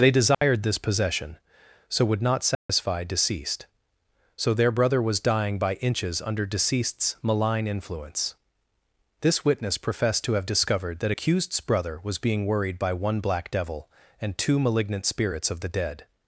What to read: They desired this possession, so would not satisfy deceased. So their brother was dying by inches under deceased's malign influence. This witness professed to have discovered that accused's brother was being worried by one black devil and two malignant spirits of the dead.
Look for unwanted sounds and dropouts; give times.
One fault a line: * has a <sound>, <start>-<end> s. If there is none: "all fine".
* has a dropout, 0.3-0.4 s
* has a dropout, 2.5-2.7 s